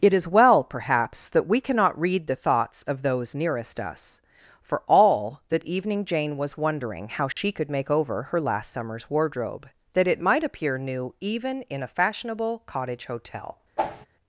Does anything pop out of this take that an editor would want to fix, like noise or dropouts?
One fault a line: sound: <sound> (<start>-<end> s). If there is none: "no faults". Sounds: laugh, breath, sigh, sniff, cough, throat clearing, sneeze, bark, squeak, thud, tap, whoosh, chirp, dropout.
sound: dropout (7.3-7.4 s)
sound: whoosh (13.8-14.1 s)